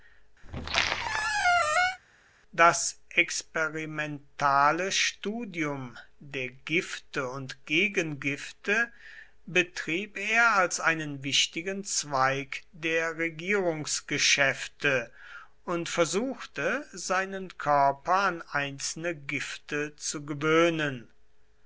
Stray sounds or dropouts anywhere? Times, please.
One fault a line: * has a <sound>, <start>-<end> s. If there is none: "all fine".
* has a squeak, 0.4-2.0 s